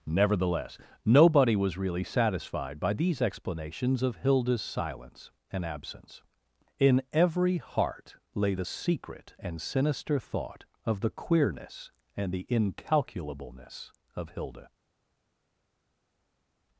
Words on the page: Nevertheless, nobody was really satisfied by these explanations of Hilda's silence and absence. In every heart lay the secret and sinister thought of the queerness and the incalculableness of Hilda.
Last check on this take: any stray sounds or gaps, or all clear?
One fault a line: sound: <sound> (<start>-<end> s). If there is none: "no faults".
no faults